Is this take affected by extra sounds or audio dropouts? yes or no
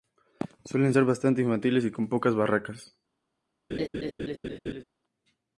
yes